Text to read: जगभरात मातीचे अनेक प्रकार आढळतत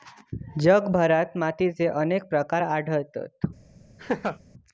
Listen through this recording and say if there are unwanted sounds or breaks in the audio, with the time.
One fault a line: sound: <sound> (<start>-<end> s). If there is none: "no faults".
sound: laugh (4.0-4.4 s)